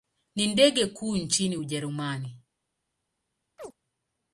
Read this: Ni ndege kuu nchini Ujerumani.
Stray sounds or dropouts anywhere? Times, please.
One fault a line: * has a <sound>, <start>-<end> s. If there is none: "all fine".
* has a chirp, 3.6-3.8 s